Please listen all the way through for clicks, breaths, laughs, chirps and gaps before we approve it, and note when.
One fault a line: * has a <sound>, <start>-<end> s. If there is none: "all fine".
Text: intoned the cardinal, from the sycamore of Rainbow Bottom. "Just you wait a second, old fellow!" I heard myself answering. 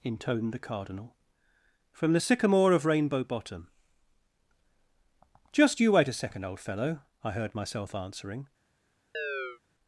* has a chirp, 9.1-9.6 s